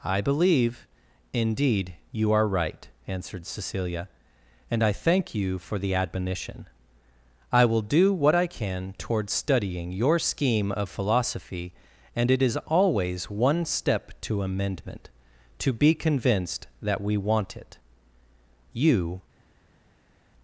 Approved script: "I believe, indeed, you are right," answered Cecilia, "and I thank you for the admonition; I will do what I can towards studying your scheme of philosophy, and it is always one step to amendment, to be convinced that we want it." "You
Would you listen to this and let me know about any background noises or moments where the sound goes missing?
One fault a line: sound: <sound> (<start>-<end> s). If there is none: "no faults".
no faults